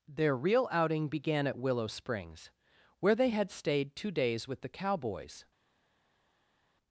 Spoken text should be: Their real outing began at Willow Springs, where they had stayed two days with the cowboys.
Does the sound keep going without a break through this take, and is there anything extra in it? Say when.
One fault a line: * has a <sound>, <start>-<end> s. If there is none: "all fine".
all fine